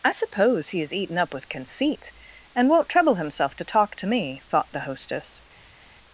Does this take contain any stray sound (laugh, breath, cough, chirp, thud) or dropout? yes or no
no